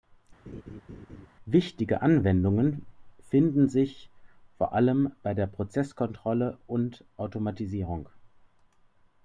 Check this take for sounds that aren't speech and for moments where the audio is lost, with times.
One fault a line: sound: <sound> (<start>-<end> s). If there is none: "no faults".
sound: laugh (0.5-1.3 s)